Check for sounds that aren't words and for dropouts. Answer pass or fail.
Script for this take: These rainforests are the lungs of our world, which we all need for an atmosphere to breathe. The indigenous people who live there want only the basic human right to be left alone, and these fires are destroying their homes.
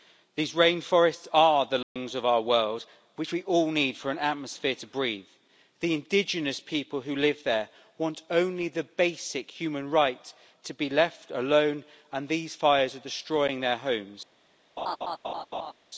fail